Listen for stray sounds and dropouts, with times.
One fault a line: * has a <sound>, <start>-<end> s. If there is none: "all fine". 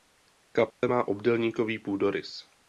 * has a dropout, 0.7-0.8 s